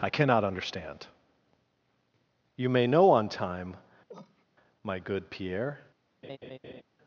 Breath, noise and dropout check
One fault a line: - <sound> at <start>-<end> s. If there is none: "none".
- cough at 4.1-4.5 s
- laugh at 6.2-6.8 s